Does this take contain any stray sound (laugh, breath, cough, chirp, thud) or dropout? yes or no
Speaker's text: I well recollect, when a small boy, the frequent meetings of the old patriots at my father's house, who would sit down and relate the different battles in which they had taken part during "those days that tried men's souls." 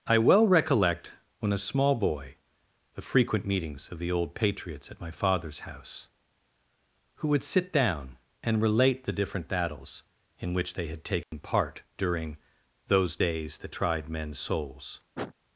yes